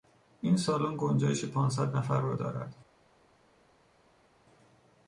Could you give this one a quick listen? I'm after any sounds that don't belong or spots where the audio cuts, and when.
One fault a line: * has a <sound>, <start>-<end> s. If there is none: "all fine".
all fine